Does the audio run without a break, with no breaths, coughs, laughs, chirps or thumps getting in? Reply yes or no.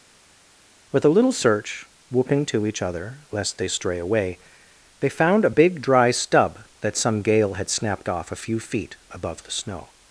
yes